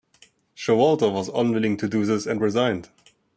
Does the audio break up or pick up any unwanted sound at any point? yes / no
no